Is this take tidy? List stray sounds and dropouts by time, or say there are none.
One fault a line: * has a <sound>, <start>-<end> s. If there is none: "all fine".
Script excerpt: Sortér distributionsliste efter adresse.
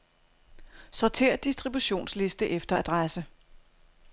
all fine